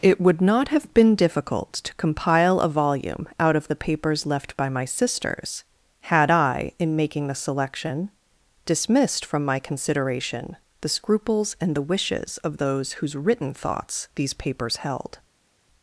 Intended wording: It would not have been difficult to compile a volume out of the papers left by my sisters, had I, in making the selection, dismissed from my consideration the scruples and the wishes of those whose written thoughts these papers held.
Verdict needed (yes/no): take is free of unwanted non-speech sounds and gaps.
yes